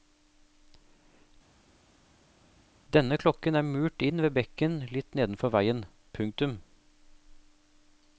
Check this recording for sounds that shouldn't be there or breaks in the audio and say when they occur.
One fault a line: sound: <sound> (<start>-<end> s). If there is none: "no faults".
no faults